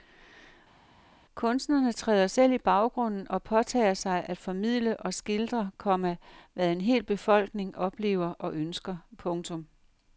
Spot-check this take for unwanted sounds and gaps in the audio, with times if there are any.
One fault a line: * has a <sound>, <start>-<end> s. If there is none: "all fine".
all fine